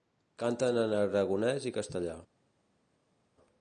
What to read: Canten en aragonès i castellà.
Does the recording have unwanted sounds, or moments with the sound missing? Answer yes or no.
no